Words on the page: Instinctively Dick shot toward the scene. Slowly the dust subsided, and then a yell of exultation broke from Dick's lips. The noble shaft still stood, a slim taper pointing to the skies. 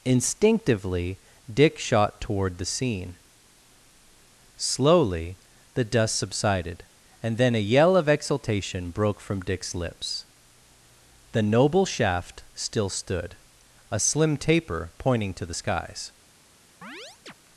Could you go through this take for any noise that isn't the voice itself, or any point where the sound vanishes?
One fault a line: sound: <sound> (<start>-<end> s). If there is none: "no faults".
sound: chirp (16.8-17.3 s)